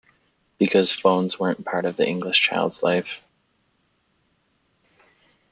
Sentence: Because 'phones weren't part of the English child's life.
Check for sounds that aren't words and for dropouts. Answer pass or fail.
pass